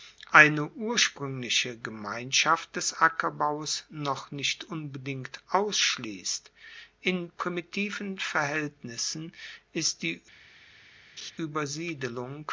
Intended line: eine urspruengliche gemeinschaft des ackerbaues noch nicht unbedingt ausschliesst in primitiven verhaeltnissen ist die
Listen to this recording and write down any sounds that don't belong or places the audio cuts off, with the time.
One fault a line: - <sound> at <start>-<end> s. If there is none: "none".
- laugh at 11.2-11.3 s